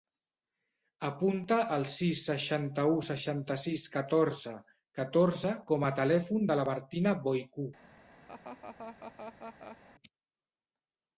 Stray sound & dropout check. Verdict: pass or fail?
fail